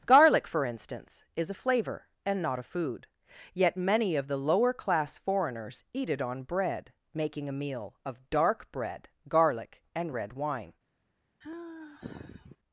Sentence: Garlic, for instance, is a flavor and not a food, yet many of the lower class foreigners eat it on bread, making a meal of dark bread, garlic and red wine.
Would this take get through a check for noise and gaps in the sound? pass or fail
fail